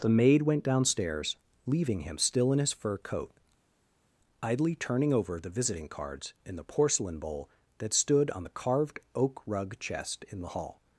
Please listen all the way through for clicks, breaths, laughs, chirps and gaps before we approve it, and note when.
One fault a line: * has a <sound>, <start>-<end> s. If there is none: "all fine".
all fine